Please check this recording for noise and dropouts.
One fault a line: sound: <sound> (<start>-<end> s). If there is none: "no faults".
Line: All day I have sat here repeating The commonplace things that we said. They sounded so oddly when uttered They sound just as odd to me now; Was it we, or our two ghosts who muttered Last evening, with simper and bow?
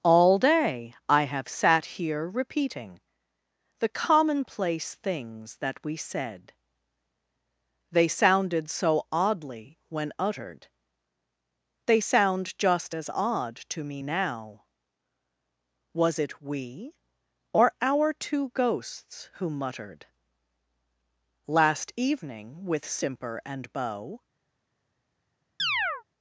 sound: chirp (25.6-26.0 s)